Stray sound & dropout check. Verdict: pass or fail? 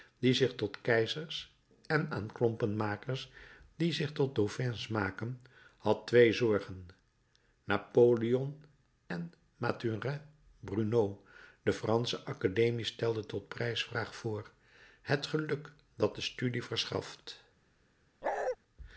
fail